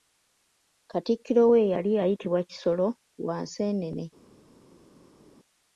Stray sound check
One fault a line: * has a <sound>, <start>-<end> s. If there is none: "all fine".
all fine